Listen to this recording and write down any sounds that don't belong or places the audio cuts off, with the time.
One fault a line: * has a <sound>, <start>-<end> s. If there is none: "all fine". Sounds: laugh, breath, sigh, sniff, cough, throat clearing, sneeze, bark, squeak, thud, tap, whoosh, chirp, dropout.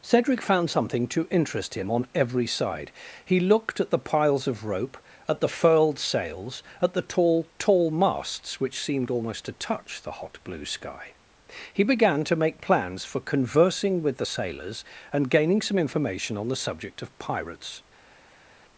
all fine